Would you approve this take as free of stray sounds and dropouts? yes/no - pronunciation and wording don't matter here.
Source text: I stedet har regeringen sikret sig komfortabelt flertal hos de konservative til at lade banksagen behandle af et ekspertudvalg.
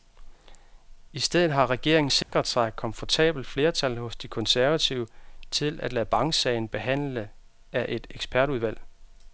no